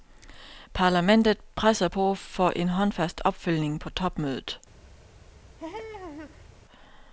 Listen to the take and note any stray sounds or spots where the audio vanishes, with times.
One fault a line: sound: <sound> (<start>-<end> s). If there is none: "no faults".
sound: laugh (5.6-6.5 s)